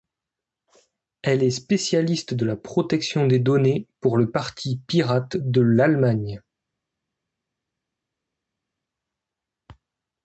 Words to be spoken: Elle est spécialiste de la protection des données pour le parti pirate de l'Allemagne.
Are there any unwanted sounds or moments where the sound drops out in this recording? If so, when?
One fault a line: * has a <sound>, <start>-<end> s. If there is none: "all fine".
all fine